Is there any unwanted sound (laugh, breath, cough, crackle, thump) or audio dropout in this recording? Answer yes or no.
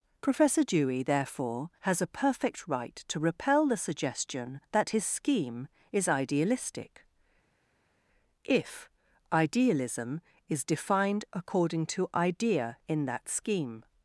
no